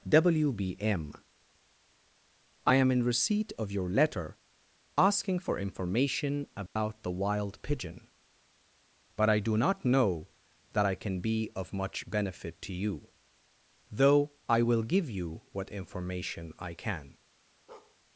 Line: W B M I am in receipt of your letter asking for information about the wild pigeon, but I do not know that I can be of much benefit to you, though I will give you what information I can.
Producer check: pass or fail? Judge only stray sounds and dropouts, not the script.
fail